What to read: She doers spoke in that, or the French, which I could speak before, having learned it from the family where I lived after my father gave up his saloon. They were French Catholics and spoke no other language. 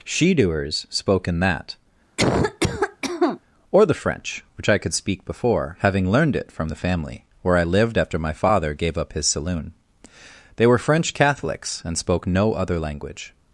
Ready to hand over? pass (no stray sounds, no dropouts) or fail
fail